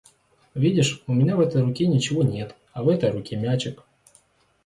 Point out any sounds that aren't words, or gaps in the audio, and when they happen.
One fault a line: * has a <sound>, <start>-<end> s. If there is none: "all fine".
all fine